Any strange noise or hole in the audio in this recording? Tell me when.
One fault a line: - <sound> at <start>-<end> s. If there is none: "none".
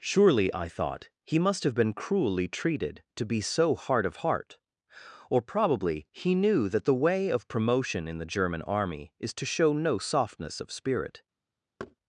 - thud at 11.8-12.0 s